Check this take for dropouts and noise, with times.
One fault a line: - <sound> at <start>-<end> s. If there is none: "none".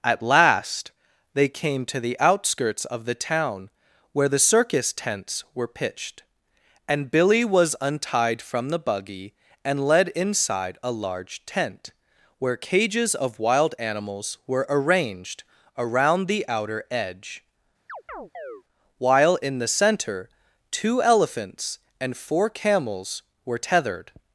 - chirp at 17.9-18.6 s